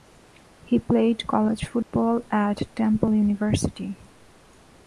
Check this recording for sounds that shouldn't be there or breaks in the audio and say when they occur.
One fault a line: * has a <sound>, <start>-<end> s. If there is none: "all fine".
* has a dropout, 1.8-1.9 s